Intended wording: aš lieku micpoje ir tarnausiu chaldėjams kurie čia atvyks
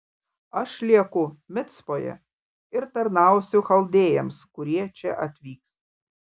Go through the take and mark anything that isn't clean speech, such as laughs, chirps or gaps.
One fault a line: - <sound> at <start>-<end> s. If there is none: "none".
none